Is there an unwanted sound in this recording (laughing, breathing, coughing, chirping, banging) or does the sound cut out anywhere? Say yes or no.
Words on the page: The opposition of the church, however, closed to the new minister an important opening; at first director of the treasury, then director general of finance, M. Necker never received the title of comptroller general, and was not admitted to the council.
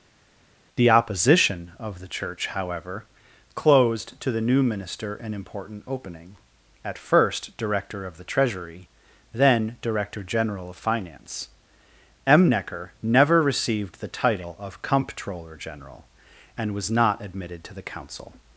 no